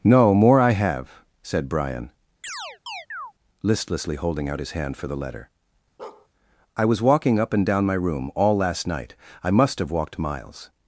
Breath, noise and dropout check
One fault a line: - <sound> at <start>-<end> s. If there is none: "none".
- chirp at 2.4-3.3 s
- bark at 6.0-6.3 s